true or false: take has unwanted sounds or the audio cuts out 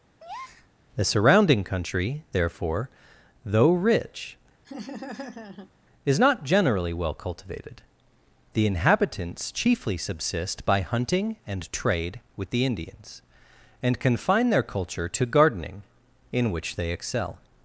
true